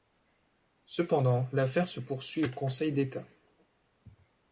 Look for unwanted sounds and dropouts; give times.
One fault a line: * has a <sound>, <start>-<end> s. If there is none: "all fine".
all fine